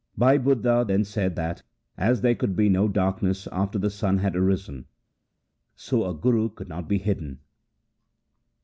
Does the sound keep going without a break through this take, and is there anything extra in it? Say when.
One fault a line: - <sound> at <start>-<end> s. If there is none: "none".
none